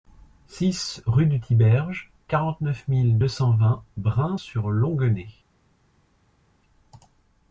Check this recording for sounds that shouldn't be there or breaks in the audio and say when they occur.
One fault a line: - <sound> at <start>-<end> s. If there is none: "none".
none